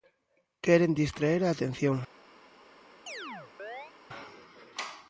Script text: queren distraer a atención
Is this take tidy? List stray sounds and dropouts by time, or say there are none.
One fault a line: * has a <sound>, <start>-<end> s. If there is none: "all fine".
* has a chirp, 3.1-3.9 s